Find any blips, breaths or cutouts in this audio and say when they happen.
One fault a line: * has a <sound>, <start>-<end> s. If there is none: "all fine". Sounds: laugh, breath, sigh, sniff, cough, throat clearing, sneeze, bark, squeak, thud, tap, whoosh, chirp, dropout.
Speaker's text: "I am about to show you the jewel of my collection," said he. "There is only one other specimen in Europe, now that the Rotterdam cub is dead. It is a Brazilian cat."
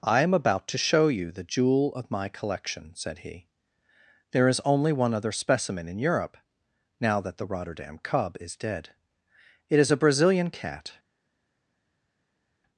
all fine